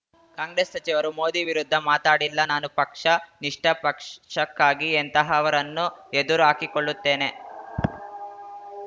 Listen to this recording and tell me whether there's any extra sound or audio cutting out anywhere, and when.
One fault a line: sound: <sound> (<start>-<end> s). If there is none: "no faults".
no faults